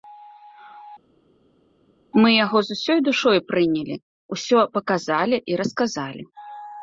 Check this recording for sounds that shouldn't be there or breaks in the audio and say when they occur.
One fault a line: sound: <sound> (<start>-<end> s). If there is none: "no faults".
no faults